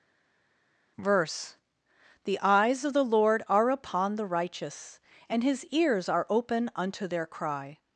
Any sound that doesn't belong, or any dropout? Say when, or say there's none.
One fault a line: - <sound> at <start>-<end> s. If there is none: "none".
none